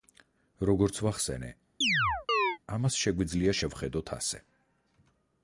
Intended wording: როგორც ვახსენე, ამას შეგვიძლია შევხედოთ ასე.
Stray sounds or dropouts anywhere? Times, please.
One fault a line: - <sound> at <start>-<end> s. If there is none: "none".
- chirp at 1.8-2.6 s